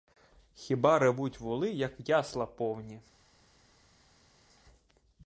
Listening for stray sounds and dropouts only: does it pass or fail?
pass